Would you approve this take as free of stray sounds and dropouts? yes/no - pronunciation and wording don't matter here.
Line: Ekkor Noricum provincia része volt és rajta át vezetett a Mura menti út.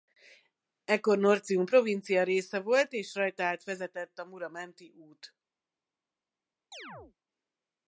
no